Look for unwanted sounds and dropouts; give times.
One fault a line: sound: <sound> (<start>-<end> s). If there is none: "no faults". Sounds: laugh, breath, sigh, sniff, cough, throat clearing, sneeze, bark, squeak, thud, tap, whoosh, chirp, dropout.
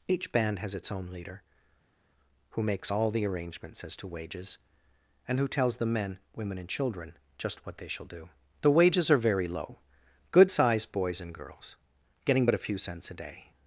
no faults